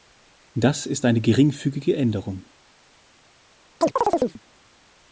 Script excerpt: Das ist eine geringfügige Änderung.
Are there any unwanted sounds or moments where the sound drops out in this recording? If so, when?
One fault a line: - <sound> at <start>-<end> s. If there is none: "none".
- chirp at 3.8-4.4 s